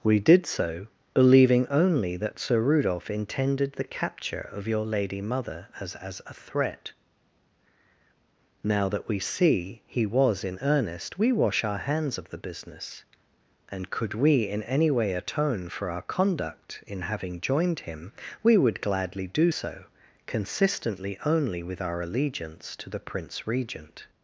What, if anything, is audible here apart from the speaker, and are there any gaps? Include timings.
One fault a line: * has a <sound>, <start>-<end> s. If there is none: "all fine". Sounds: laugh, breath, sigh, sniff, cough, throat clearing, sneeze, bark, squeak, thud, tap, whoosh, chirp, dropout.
all fine